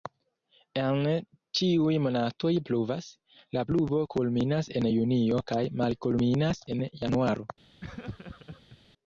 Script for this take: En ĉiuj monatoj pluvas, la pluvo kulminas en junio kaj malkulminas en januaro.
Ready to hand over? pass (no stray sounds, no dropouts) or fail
fail